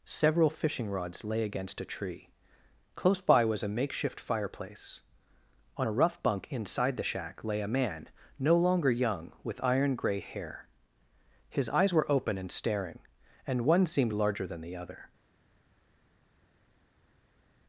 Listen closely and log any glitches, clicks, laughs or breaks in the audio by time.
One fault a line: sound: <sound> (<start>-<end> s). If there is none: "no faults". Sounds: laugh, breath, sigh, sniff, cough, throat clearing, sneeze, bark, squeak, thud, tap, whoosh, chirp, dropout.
no faults